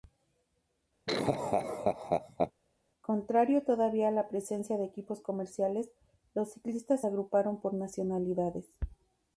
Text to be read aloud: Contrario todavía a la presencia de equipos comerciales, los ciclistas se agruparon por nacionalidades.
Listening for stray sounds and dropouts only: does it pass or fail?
fail